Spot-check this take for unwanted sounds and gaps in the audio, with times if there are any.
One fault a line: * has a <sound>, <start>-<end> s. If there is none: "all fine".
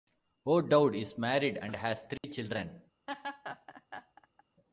* has a dropout, 2.2-2.2 s
* has a laugh, 3.1-4.4 s